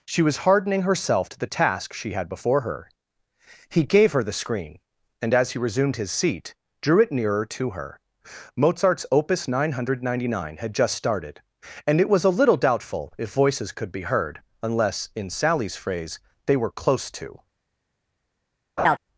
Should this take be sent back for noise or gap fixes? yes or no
yes